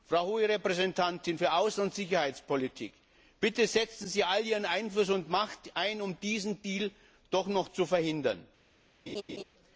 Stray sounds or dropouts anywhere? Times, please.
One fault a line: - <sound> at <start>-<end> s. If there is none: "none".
- laugh at 9.1-9.4 s